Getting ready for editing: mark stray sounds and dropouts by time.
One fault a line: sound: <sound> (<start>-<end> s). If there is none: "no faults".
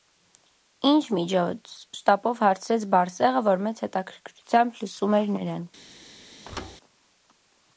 sound: thud (6.4-6.8 s)